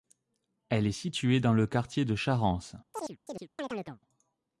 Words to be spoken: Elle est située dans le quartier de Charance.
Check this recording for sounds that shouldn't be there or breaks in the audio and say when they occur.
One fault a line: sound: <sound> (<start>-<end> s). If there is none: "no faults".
sound: chirp (2.9-4.0 s)